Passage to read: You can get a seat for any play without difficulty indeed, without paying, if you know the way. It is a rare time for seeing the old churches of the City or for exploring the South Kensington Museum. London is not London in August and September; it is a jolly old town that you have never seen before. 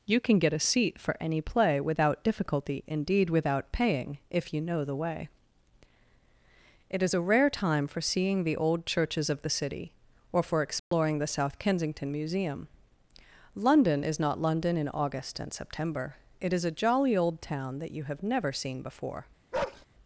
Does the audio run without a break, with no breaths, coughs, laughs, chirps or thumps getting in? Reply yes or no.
no